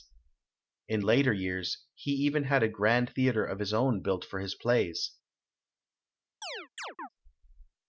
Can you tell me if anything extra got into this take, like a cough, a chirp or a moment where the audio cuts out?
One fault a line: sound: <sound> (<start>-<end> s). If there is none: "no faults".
sound: chirp (6.4-7.1 s)